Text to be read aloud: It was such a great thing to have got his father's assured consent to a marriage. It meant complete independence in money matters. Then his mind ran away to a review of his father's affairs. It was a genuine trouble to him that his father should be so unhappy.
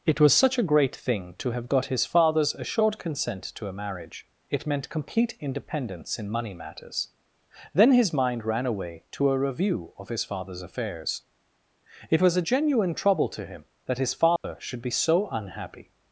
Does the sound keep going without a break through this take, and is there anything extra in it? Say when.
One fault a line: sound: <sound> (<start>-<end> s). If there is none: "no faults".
sound: dropout (14.4-14.4 s)